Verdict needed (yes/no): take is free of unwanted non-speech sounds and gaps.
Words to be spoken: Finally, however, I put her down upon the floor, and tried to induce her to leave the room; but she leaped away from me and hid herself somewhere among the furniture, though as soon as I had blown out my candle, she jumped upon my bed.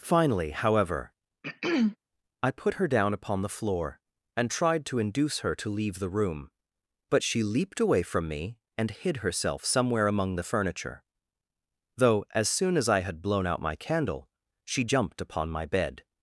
no